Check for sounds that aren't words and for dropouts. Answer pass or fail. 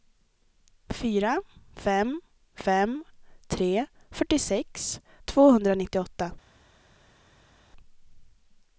pass